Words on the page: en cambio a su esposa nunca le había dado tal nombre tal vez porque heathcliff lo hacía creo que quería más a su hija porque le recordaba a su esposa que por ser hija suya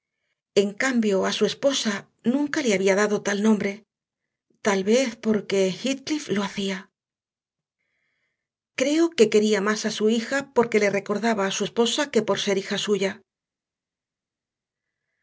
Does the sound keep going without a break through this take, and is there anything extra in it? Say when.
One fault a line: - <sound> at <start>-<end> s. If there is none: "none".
none